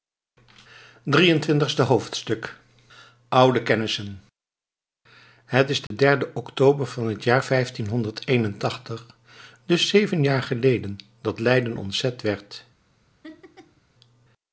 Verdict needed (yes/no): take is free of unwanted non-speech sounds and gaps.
no